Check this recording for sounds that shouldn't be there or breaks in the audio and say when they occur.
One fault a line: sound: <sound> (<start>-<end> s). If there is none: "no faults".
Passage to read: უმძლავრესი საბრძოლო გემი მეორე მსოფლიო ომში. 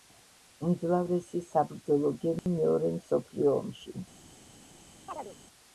sound: dropout (2.4-2.5 s)
sound: chirp (5.1-5.4 s)